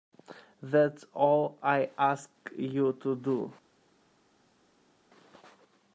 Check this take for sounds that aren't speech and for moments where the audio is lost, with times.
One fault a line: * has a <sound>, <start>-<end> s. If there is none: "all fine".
all fine